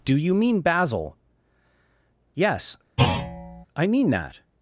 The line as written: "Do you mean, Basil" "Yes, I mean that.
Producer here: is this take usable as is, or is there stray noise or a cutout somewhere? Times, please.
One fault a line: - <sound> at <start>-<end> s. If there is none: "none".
- thud at 3.0-3.7 s